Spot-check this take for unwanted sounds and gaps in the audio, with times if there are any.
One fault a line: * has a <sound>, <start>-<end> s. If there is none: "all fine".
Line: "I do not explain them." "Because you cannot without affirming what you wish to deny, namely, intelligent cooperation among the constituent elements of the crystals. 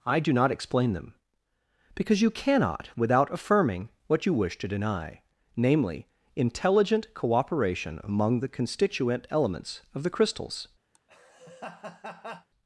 * has a laugh, 10.9-12.5 s